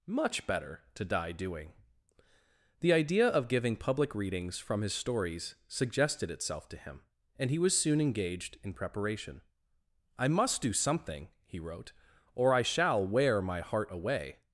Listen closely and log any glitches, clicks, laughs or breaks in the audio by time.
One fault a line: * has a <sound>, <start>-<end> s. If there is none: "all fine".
all fine